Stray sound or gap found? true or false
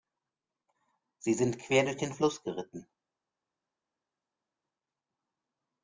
false